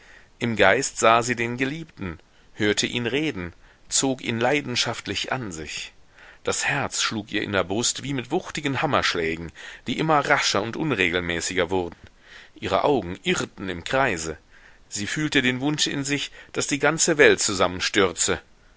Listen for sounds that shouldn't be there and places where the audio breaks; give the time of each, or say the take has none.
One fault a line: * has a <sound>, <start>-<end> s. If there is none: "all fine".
* has a dropout, 11.9-12.0 s